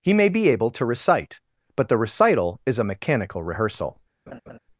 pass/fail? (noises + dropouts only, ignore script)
fail